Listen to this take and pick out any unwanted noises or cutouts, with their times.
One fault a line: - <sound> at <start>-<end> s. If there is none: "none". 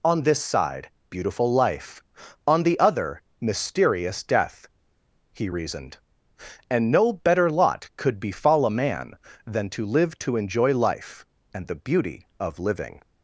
none